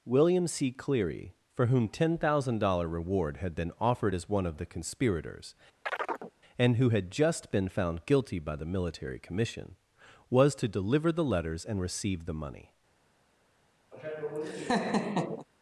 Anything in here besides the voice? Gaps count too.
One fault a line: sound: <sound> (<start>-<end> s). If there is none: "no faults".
sound: chirp (5.9-6.3 s)
sound: laugh (13.9-15.5 s)